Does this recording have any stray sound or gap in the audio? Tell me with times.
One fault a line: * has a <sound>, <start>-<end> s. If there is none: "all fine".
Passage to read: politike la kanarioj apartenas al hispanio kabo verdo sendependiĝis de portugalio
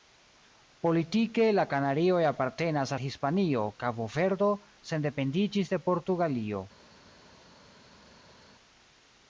all fine